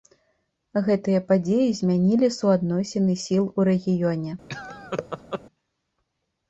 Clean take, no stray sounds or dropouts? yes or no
no